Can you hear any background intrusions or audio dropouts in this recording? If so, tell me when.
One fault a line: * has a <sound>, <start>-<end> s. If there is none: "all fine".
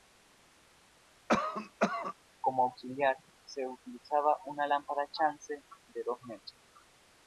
* has a cough, 1.3-2.1 s